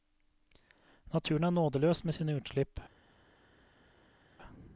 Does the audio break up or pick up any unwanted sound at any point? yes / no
no